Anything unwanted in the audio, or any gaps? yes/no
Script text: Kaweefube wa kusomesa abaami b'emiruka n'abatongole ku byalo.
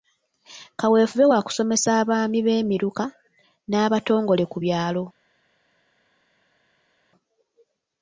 no